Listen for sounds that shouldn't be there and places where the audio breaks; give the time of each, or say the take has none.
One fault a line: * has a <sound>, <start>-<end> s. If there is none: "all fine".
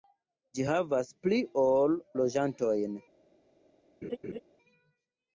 * has a laugh, 4.0-4.4 s